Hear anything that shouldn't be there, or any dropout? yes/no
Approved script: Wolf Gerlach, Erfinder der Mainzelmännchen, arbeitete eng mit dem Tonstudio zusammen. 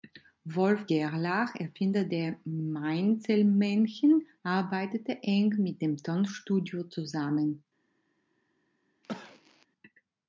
yes